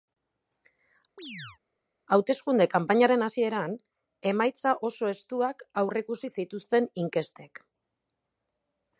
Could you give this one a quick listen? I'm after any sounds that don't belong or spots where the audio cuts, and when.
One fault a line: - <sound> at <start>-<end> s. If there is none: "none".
- chirp at 1.2-1.6 s